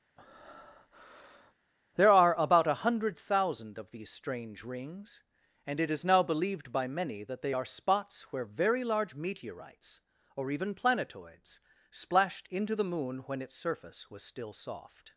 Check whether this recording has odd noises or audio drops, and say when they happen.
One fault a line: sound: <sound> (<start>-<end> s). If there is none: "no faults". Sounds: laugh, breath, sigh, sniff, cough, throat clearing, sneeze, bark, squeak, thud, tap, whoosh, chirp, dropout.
sound: breath (0.2-1.5 s)